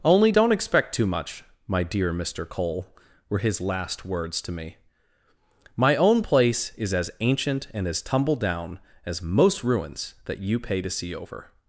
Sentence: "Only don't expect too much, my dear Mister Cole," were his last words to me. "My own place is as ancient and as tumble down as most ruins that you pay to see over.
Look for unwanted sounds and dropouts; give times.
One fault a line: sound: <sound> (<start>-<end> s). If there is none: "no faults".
no faults